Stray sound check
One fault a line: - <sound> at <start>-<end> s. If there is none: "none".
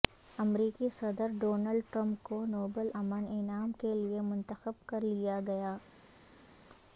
none